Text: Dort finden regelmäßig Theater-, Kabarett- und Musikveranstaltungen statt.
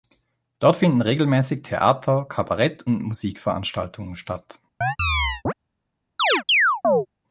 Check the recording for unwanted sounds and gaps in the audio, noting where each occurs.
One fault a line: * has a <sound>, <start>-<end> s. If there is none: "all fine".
* has a chirp, 4.8-5.5 s
* has a chirp, 6.2-7.1 s